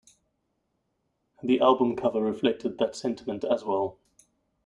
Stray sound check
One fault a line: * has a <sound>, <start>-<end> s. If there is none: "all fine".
all fine